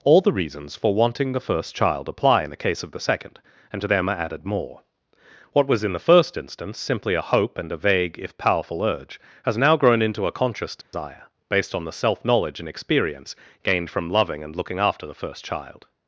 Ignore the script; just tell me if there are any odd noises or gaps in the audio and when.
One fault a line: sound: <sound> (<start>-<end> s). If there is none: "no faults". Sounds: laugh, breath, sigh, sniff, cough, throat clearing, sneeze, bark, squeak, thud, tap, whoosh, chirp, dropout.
sound: dropout (10.8-10.9 s)